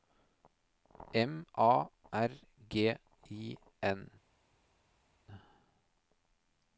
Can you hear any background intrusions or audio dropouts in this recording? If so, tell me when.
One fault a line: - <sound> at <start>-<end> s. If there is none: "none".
none